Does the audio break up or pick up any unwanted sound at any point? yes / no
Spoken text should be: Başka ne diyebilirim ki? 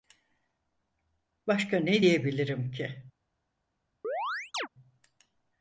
yes